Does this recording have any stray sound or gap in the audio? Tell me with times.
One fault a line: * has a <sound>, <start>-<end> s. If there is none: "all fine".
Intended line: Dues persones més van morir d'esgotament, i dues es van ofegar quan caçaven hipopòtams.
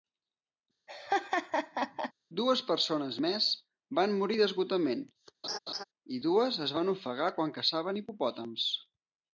* has a laugh, 0.9-2.1 s
* has a laugh, 5.4-5.8 s